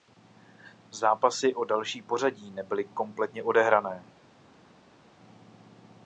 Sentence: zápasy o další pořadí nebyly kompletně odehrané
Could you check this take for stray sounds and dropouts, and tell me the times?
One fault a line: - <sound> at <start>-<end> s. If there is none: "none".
none